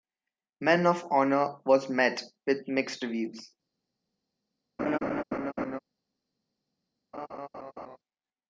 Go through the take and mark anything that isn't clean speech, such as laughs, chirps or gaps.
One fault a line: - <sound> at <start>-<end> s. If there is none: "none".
- laugh at 4.8-5.8 s
- laugh at 7.1-8.0 s